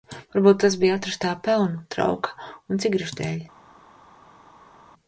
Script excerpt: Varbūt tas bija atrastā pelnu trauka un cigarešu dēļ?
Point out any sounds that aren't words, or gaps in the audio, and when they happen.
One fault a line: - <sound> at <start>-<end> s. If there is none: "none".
none